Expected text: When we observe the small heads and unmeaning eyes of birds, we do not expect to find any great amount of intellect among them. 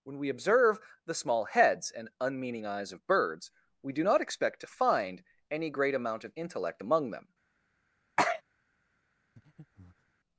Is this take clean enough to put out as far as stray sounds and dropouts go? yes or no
no